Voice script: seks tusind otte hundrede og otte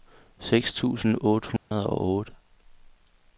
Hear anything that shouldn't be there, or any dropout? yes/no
yes